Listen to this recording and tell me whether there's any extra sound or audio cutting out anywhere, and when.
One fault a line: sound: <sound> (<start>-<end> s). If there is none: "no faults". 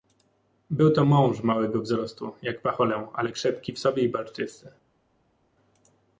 no faults